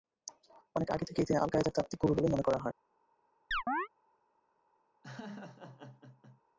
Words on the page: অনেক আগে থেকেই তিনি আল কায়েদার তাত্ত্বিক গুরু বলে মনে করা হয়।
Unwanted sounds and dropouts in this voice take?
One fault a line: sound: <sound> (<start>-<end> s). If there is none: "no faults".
sound: chirp (3.5-3.9 s)
sound: laugh (5.0-6.4 s)